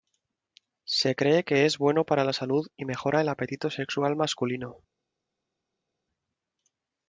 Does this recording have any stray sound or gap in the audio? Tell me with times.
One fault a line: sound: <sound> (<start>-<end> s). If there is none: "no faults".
no faults